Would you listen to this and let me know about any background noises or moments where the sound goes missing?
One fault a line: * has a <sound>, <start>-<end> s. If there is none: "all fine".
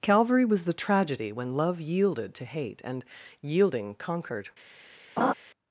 * has a laugh, 5.2-5.3 s